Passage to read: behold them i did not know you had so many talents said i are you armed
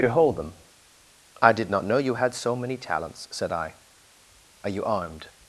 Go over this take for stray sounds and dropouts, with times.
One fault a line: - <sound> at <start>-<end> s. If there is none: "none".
none